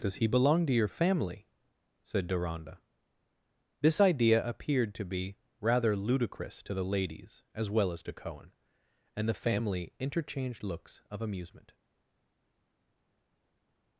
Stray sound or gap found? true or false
false